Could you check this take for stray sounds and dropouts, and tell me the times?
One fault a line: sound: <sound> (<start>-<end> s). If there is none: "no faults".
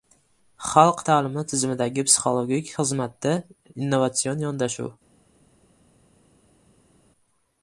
no faults